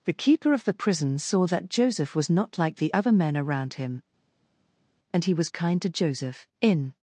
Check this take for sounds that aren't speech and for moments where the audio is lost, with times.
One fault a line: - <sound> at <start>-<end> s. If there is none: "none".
none